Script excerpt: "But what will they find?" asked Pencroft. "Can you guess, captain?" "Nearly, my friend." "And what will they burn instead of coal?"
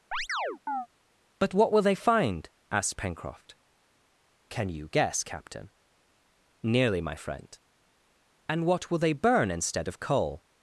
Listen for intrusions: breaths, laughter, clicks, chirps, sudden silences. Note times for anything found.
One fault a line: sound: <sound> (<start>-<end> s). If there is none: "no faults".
sound: chirp (0.1-0.9 s)